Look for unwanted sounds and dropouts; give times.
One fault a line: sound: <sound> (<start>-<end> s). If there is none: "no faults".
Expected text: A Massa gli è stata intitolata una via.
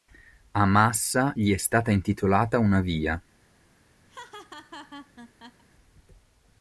sound: laugh (4.1-5.6 s)